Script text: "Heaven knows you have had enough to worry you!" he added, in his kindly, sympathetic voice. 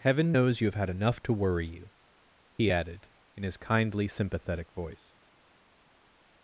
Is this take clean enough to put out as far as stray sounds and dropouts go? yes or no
yes